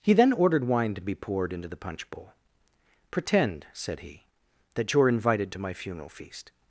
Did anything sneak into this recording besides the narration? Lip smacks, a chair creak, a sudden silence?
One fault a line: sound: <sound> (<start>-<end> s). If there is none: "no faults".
no faults